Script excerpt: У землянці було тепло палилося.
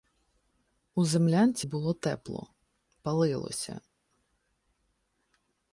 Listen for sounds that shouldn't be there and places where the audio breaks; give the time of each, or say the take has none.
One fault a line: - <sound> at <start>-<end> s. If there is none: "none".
none